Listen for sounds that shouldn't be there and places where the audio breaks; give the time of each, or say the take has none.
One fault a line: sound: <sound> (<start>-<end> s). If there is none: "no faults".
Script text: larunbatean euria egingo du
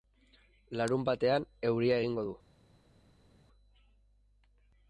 no faults